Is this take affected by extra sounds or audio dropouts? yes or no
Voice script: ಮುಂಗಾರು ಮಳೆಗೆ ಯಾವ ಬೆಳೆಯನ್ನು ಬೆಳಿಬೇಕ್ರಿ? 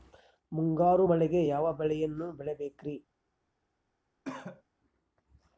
yes